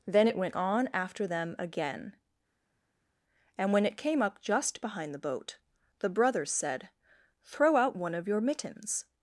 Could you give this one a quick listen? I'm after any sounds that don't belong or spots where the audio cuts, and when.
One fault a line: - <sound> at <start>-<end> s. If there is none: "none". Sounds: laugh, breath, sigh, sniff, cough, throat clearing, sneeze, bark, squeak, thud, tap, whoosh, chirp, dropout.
none